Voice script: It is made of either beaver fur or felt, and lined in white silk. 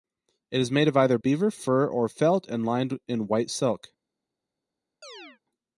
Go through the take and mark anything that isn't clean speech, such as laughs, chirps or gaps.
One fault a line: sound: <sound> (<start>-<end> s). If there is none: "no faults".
sound: chirp (5.0-5.4 s)